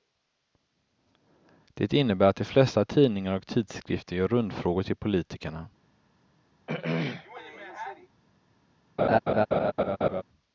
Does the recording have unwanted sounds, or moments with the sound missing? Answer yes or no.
yes